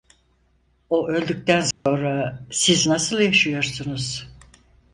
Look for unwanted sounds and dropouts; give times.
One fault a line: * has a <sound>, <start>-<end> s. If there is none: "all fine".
* has a dropout, 1.7-1.9 s